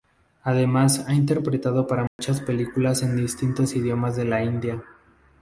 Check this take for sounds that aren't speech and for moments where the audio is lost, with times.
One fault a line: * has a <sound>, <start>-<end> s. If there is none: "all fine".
* has a dropout, 2.1-2.2 s